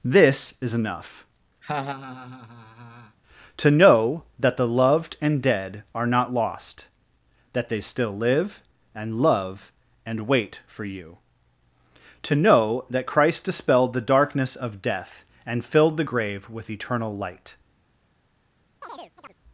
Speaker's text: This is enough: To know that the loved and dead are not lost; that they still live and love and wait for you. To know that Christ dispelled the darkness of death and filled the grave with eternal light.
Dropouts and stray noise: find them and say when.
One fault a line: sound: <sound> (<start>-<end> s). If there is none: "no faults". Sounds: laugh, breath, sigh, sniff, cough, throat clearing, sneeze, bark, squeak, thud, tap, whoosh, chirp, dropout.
sound: laugh (1.6-3.2 s)
sound: chirp (18.8-19.4 s)